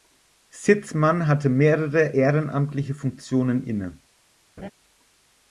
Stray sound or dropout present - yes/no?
yes